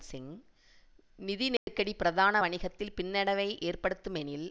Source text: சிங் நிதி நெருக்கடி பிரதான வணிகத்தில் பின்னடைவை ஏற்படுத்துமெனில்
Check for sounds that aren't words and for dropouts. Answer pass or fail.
fail